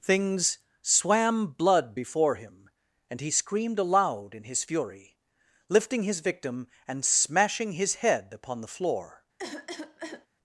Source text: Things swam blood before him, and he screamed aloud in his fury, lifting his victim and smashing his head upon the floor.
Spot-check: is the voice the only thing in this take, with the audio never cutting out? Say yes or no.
no